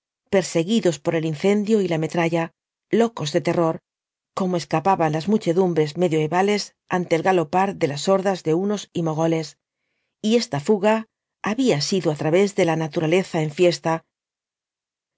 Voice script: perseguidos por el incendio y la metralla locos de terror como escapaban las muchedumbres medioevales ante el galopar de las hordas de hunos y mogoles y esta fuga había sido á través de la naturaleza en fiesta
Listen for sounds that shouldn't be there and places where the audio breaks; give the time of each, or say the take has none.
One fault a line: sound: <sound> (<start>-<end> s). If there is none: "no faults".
no faults